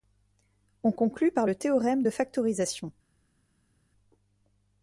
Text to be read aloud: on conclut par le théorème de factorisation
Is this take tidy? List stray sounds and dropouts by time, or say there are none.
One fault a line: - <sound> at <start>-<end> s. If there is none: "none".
none